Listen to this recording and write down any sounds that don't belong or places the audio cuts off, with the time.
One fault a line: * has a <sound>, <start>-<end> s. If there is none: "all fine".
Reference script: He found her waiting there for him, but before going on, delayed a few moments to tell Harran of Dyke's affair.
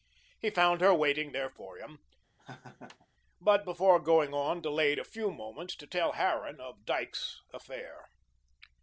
* has a laugh, 2.4-3.1 s